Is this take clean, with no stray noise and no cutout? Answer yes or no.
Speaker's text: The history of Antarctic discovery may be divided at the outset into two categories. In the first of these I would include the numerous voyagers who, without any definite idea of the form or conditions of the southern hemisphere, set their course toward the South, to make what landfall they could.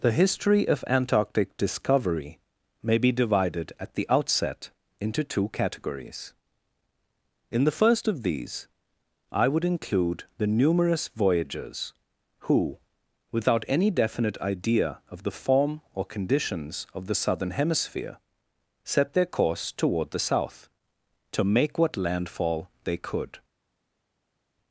yes